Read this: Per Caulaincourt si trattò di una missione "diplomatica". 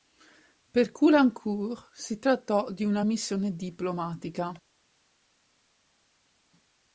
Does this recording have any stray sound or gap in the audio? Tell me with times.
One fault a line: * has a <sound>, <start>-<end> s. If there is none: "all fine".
all fine